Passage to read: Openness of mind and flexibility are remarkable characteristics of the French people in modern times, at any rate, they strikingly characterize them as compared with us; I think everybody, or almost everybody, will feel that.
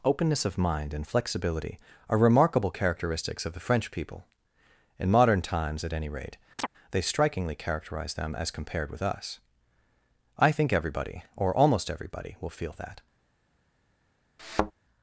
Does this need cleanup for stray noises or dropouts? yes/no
yes